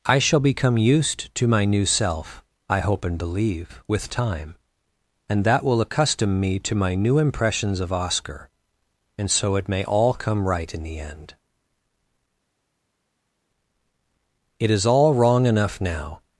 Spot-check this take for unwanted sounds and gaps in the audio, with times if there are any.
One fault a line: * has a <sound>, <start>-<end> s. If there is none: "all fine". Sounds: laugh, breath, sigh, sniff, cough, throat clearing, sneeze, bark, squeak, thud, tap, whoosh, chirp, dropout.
all fine